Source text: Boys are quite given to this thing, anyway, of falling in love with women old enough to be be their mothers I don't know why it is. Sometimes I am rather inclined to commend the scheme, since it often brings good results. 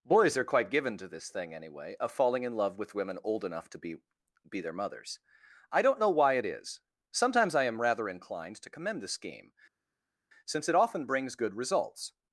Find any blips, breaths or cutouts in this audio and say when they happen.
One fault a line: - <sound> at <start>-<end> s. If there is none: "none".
none